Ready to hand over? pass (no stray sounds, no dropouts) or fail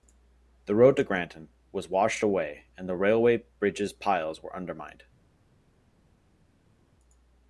pass